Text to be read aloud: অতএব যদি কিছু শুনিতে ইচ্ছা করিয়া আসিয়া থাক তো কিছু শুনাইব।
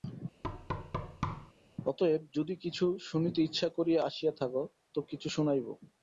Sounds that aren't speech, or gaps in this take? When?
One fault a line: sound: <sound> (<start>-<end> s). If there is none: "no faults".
sound: thud (0.4-1.5 s)